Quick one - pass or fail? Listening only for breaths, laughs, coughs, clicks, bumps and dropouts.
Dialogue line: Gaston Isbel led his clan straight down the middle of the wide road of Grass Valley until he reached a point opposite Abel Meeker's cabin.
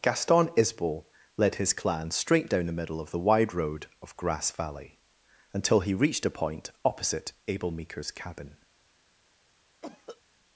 fail